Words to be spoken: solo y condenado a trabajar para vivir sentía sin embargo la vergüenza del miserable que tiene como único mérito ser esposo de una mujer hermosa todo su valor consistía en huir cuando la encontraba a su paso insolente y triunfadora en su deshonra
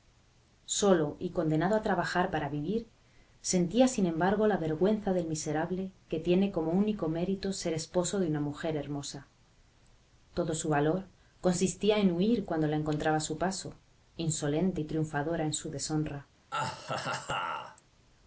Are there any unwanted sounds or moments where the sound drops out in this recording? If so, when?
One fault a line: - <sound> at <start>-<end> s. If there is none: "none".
- laugh at 16.5-17.8 s